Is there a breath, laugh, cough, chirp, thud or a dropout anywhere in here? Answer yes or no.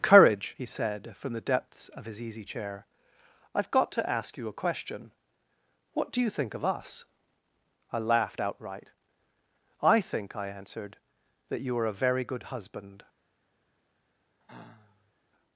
yes